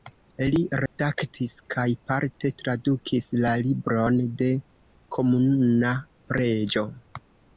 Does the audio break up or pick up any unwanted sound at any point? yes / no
yes